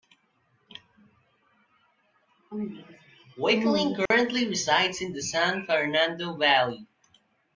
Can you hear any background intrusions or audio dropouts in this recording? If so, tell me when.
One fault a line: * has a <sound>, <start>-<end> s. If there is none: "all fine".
* has a dropout, 4.1-4.1 s